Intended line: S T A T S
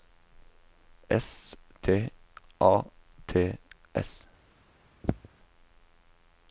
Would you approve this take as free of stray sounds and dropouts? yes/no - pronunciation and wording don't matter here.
no